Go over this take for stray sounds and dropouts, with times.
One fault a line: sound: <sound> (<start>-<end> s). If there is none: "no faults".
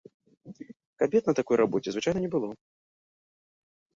no faults